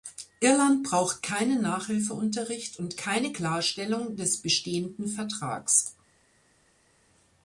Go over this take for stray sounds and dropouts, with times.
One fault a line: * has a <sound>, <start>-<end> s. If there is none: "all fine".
all fine